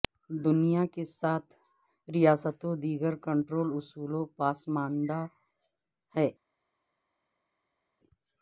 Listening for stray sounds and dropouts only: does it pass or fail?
pass